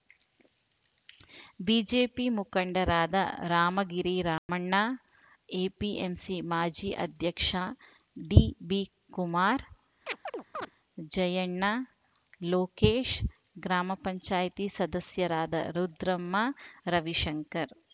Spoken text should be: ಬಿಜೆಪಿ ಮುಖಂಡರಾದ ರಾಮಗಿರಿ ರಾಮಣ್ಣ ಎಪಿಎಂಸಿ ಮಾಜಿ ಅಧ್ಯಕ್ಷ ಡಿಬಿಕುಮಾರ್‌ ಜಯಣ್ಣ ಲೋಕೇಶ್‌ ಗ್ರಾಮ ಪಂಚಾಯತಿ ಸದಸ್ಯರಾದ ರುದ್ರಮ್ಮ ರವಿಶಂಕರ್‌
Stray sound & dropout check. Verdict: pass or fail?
fail